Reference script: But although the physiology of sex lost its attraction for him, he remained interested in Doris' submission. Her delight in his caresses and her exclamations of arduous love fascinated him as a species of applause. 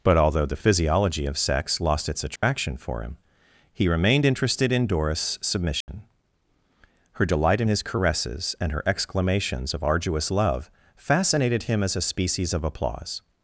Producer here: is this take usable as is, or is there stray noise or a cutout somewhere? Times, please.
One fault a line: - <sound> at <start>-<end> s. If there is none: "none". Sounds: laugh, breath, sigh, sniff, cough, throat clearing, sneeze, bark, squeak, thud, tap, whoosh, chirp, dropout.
- dropout at 2.4-2.4 s
- dropout at 5.8-5.9 s